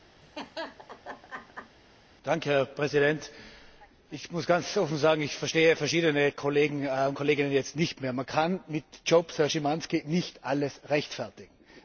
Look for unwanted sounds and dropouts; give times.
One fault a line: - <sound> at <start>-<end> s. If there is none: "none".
- laugh at 0.2-1.8 s